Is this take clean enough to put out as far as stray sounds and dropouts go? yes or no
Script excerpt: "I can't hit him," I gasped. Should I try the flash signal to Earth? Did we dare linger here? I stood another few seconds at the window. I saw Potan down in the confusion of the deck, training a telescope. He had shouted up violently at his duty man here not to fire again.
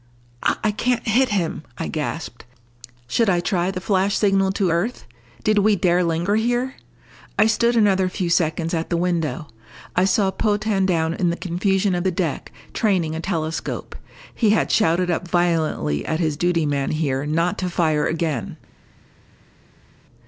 yes